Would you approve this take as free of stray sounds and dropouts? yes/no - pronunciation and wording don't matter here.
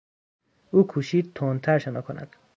yes